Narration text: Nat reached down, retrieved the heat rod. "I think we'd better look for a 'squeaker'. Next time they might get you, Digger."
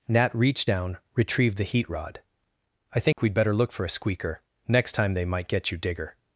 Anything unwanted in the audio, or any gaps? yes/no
yes